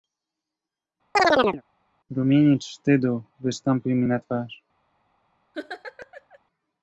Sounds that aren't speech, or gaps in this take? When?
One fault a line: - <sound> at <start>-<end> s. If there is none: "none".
- chirp at 1.1-1.6 s
- laugh at 5.5-6.4 s